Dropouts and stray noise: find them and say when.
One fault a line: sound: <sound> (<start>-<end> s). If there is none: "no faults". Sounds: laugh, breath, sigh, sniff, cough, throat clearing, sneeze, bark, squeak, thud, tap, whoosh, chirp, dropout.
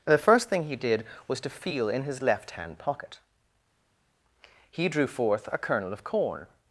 no faults